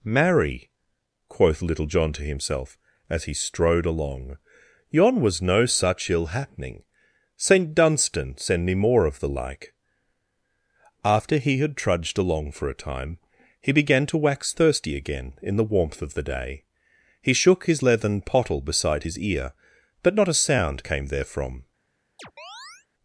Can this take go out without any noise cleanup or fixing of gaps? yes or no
no